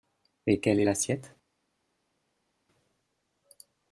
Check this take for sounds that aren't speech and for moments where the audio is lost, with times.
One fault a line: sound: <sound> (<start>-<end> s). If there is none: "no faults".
no faults